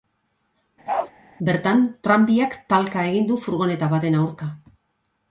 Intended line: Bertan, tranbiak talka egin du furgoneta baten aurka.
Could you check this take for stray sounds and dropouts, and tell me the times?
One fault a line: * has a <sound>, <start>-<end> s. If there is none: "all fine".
* has a bark, 0.9-1.1 s